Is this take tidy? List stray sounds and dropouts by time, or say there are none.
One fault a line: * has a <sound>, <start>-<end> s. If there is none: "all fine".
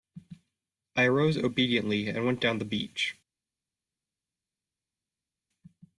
all fine